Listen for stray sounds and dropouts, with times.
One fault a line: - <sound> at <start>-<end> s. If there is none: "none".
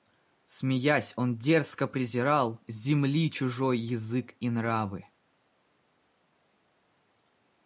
none